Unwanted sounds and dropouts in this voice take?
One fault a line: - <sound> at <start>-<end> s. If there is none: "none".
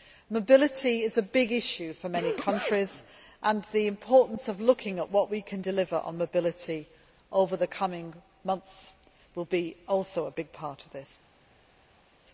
none